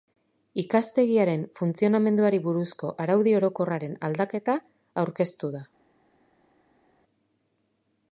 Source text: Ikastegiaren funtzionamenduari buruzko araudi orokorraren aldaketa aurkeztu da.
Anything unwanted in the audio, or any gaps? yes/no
no